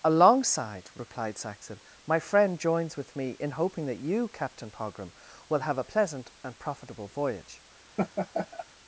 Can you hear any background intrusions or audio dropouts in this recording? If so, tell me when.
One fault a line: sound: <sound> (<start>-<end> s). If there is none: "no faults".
sound: laugh (8.0-8.6 s)